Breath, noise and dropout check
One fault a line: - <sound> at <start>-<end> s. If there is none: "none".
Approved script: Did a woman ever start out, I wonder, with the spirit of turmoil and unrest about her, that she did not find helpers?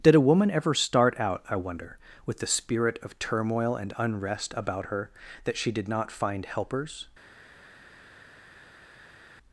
none